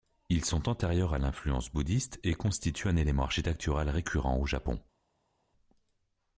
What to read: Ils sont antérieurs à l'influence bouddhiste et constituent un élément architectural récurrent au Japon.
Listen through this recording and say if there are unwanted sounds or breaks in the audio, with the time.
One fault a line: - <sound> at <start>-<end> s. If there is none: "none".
none